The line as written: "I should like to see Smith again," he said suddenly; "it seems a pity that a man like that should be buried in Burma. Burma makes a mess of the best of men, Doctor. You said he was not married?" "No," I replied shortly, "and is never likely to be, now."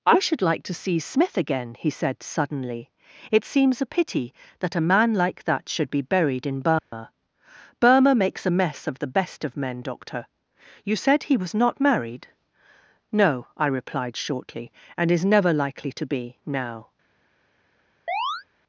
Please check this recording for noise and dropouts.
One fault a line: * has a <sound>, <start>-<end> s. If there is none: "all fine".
* has a dropout, 6.8-6.9 s
* has a chirp, 18.1-18.4 s